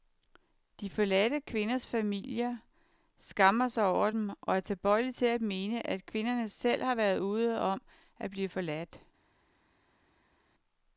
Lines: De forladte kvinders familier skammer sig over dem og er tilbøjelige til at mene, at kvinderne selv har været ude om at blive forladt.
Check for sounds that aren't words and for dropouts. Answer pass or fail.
pass